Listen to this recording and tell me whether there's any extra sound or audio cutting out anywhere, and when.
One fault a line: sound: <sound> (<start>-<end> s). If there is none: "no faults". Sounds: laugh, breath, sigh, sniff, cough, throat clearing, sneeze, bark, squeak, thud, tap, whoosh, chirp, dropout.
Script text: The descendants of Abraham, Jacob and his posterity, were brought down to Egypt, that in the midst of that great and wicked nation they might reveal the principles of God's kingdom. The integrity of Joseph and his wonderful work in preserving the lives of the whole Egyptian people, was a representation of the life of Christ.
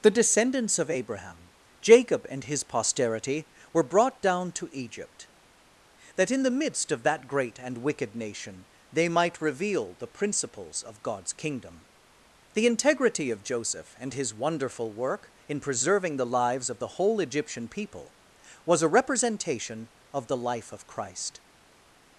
no faults